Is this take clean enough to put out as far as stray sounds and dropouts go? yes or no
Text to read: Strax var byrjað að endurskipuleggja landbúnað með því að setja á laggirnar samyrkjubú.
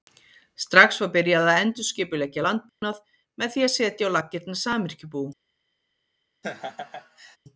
no